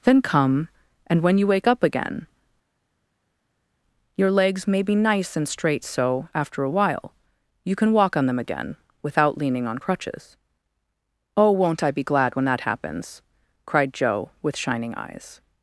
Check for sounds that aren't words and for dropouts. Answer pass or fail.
pass